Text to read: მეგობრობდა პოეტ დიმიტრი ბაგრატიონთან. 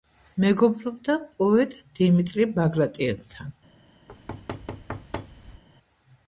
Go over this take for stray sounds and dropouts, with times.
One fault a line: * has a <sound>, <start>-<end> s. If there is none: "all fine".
* has a thud, 4.1-5.6 s